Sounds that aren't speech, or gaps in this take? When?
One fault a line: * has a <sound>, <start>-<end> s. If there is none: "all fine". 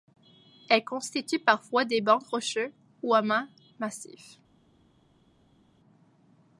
all fine